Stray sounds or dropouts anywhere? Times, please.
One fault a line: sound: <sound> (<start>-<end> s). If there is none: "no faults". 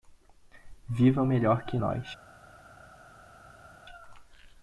no faults